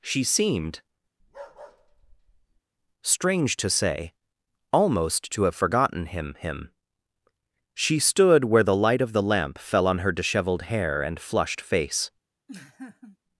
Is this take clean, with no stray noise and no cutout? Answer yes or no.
no